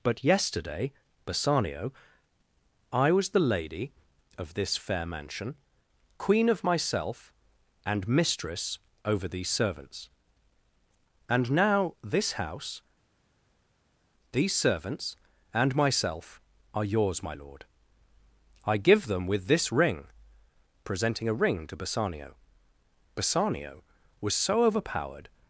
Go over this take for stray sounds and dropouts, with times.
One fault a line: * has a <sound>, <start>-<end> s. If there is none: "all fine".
all fine